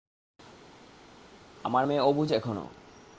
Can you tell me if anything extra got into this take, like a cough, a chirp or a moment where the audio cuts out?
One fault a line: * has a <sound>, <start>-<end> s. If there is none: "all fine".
all fine